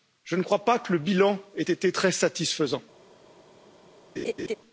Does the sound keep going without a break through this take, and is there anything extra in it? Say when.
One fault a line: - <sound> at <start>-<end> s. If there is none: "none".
- laugh at 4.2-4.6 s